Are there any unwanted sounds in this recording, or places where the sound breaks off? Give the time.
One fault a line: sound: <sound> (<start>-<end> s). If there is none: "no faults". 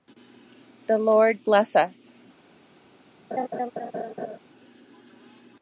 sound: laugh (3.3-4.4 s)